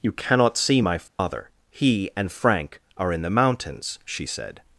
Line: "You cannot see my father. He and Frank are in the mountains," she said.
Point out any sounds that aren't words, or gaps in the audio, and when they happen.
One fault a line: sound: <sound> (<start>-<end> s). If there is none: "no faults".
sound: dropout (1.1-1.2 s)